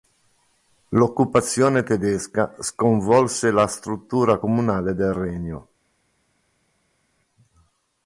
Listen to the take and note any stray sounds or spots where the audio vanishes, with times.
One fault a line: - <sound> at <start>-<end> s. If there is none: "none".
none